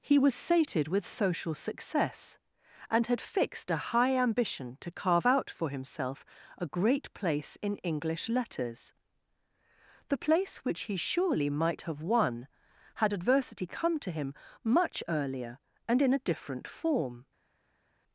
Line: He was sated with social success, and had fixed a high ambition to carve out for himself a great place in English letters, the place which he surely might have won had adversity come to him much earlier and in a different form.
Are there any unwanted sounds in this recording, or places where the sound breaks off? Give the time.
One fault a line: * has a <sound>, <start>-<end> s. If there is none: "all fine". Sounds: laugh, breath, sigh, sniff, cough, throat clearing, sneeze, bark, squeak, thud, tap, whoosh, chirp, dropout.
all fine